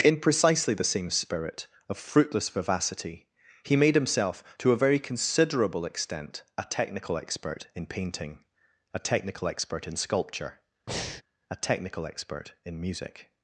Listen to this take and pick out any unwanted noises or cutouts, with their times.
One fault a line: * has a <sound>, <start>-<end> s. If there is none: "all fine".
* has a breath, 10.9-11.2 s